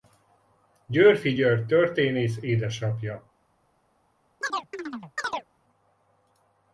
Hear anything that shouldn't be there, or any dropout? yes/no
yes